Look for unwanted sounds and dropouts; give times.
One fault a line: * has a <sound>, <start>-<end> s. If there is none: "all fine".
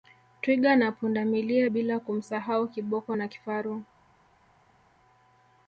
all fine